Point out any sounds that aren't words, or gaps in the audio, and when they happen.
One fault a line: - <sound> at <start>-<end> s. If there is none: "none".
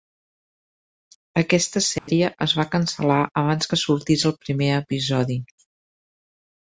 - dropout at 2.0-2.1 s